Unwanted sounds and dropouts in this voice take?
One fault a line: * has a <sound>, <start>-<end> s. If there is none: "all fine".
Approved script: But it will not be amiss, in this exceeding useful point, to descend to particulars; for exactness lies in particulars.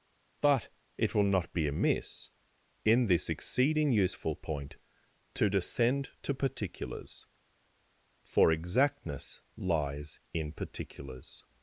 all fine